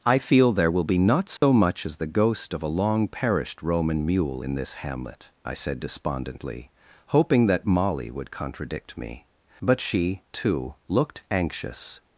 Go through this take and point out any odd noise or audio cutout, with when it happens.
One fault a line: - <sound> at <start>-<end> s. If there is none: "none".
- dropout at 1.4-1.4 s